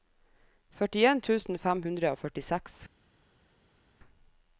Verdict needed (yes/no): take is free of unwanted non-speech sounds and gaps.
yes